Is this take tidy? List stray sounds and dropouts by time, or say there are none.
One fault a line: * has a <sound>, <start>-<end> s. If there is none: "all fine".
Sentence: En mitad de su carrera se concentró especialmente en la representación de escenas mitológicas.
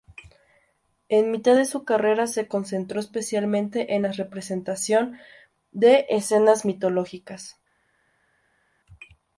all fine